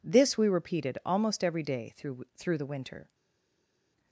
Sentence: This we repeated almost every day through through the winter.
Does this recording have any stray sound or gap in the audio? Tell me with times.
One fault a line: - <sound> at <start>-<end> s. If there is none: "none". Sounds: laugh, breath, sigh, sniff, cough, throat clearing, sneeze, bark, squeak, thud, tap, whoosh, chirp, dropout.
none